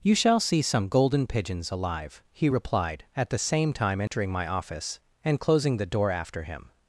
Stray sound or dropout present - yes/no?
yes